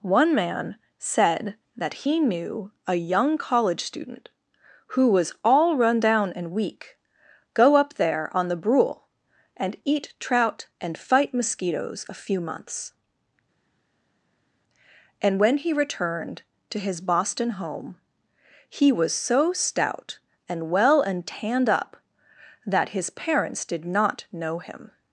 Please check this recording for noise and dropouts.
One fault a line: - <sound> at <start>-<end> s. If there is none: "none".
none